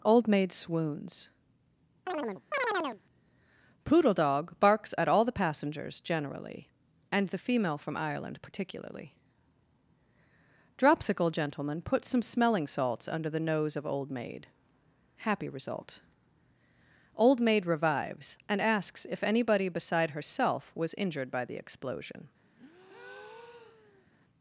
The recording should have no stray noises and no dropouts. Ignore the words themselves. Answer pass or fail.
fail